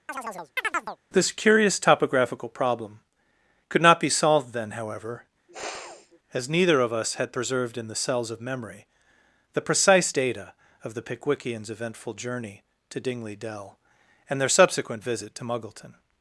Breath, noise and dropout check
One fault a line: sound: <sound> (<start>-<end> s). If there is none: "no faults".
sound: chirp (0.1-1.0 s)
sound: sniff (5.5-6.2 s)